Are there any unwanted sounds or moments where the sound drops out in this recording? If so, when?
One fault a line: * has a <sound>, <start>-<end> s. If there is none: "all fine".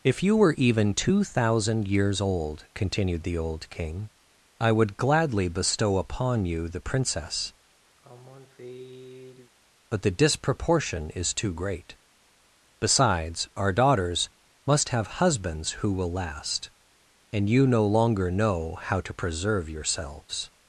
* has a sigh, 8.0-9.5 s